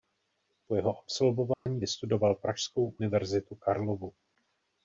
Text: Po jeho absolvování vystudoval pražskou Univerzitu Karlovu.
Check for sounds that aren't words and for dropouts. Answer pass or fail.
fail